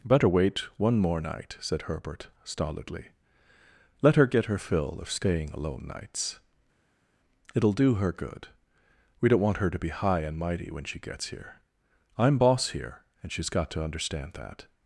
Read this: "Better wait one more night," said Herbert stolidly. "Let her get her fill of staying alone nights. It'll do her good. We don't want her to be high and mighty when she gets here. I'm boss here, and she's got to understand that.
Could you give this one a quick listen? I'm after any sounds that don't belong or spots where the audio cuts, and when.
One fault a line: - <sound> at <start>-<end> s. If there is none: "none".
none